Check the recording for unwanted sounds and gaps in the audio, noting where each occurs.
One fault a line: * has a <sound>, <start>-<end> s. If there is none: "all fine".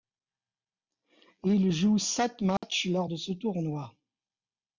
* has a dropout, 2.6-2.6 s